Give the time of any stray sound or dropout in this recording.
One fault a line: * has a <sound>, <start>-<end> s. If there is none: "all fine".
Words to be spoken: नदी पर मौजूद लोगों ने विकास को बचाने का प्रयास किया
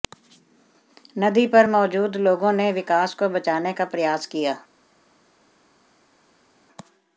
all fine